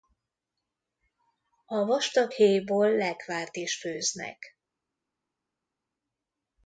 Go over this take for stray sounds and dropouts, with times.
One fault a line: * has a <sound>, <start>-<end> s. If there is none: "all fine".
all fine